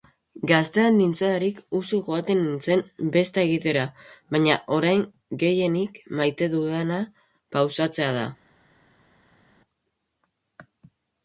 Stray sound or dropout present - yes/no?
no